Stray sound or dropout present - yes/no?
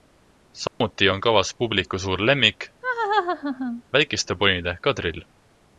yes